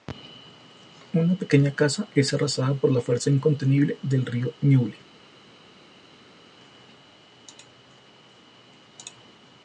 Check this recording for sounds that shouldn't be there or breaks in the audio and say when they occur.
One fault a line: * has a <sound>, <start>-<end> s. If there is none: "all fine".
all fine